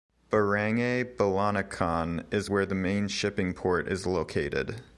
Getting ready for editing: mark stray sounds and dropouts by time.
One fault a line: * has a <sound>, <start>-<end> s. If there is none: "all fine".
all fine